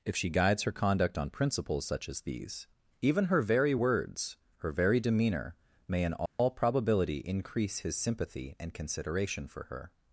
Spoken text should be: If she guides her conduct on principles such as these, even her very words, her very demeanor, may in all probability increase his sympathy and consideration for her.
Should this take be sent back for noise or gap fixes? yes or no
yes